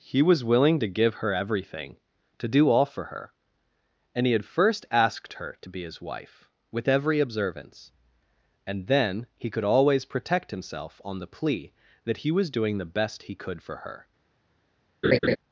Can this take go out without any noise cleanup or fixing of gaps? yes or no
no